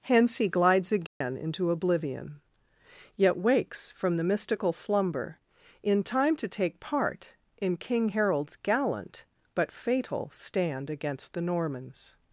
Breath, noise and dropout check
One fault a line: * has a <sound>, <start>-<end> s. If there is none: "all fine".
* has a dropout, 1.1-1.2 s